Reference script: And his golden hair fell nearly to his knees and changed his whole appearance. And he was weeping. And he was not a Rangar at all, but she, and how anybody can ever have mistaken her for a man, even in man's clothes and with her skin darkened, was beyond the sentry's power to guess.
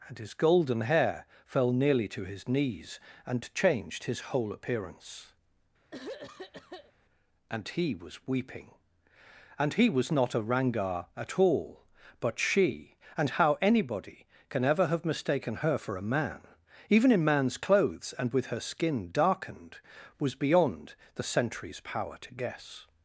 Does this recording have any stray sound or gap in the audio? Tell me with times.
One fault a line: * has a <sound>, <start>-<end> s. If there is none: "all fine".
* has a throat clearing, 5.9-6.9 s